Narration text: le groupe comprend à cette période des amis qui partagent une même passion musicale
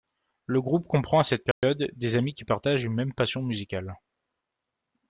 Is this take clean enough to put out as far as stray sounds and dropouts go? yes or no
no